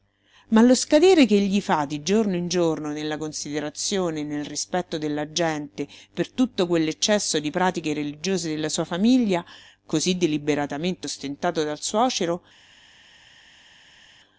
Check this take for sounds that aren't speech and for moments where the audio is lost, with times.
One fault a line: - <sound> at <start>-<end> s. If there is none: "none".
none